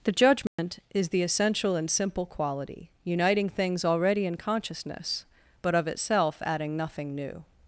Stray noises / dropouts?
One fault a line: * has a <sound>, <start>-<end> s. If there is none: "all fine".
* has a dropout, 0.5-0.6 s